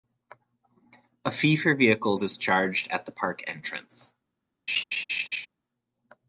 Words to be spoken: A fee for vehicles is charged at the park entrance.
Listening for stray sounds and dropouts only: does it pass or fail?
fail